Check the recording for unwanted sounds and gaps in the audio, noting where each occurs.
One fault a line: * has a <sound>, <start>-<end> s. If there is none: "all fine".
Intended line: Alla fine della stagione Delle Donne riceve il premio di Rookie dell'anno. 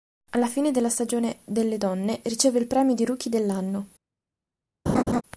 * has a laugh, 4.9-5.2 s